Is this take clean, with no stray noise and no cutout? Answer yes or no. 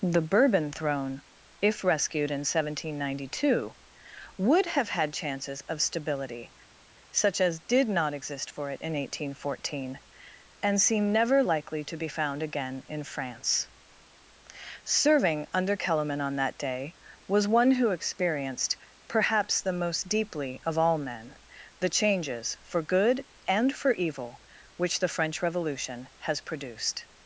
yes